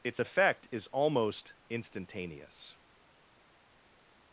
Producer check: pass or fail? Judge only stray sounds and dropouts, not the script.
pass